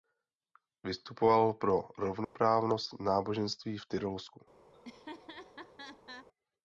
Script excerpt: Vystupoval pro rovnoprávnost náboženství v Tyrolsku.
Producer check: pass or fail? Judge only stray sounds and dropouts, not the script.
fail